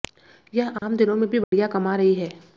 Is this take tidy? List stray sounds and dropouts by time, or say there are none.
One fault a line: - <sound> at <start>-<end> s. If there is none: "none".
- dropout at 0.8-0.8 s
- dropout at 1.4-1.5 s